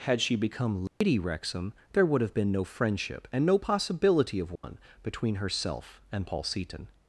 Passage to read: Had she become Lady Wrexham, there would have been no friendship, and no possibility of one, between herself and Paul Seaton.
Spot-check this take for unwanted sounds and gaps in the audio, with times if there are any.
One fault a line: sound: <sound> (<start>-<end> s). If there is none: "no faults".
sound: dropout (0.9-1.0 s)
sound: dropout (4.6-4.6 s)